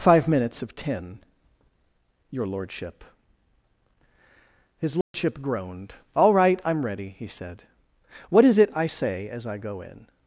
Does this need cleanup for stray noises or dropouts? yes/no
yes